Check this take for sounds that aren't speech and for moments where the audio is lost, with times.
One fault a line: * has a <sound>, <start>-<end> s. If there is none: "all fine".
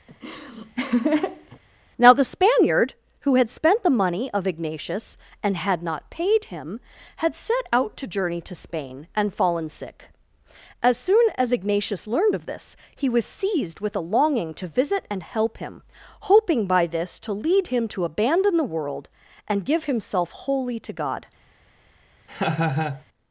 * has a laugh, 0.1-1.6 s
* has a laugh, 22.3-23.0 s